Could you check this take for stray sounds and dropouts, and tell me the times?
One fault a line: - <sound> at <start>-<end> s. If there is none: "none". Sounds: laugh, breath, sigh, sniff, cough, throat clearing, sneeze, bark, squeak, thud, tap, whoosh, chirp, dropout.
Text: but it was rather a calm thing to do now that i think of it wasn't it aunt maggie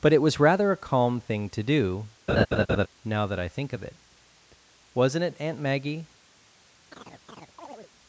- laugh at 2.3-2.9 s
- chirp at 6.9-7.9 s